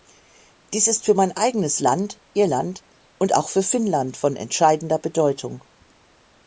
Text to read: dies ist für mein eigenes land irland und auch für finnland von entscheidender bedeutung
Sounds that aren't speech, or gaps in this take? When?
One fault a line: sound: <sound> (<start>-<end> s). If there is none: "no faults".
no faults